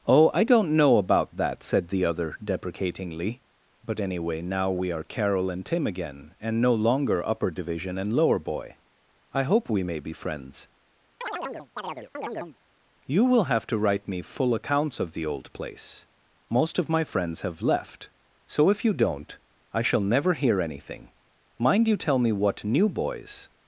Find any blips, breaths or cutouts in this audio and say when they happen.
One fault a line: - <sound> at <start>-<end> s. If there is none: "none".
- chirp at 11.2-12.6 s